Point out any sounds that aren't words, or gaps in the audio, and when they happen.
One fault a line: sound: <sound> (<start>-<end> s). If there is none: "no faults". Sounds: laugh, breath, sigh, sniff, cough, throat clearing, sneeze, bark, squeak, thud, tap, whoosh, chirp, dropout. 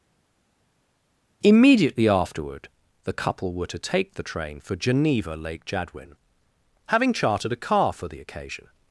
no faults